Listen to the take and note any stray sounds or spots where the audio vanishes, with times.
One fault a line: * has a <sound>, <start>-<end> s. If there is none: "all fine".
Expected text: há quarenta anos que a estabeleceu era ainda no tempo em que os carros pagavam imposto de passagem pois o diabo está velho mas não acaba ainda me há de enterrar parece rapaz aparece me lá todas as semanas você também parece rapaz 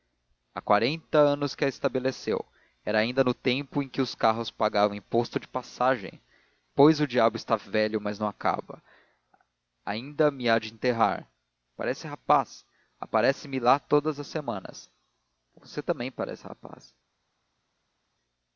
all fine